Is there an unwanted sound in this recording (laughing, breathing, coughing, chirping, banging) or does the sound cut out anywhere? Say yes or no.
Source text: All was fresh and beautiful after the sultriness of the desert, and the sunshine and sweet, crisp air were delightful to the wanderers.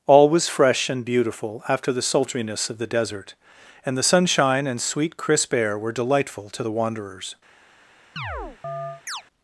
yes